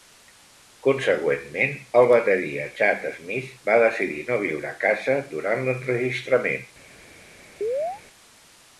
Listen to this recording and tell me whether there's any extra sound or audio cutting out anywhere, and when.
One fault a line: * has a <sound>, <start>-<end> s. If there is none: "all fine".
* has a chirp, 7.6-8.0 s